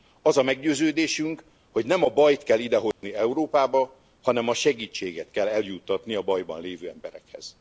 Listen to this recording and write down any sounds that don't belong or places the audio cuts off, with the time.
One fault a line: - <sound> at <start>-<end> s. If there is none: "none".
- dropout at 2.9-3.0 s